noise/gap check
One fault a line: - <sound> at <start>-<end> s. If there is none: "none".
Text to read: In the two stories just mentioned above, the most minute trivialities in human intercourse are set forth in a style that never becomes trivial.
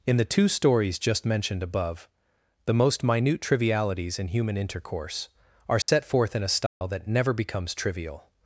- dropout at 5.8-5.9 s
- dropout at 6.7-6.8 s